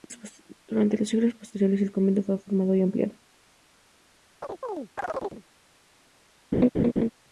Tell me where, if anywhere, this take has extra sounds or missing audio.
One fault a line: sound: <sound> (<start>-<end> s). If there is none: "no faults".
sound: chirp (4.4-5.4 s)
sound: laugh (6.5-7.1 s)